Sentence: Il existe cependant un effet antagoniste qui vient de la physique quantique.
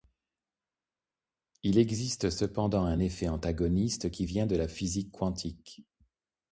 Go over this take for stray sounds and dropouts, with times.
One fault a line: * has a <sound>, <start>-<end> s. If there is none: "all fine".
all fine